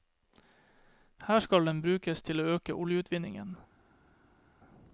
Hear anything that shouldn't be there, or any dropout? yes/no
no